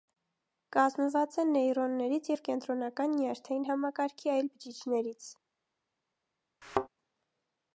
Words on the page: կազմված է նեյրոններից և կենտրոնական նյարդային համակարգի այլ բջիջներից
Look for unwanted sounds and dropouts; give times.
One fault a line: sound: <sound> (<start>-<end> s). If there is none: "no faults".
sound: thud (6.6-6.9 s)